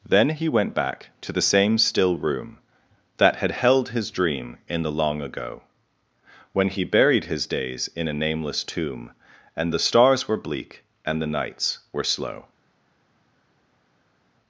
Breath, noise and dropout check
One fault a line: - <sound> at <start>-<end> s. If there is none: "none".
none